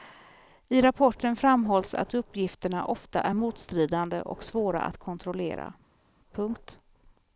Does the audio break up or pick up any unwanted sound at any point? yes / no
no